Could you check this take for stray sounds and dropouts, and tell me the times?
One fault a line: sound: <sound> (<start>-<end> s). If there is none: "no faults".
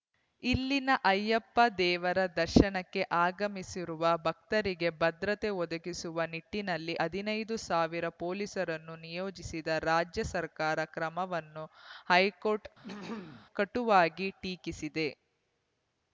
sound: throat clearing (12.8-13.5 s)